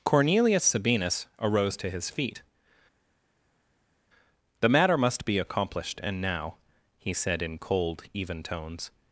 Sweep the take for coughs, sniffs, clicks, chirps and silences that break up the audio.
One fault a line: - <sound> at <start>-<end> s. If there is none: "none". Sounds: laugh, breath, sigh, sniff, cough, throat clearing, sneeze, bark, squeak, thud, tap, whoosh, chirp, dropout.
none